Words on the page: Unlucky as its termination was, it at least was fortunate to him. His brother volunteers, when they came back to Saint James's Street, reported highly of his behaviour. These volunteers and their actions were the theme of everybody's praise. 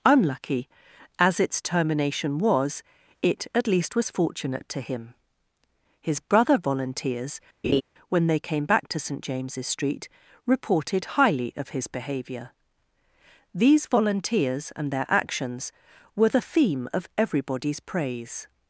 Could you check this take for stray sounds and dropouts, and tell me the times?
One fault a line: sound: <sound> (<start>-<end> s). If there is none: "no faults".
sound: laugh (7.6-7.8 s)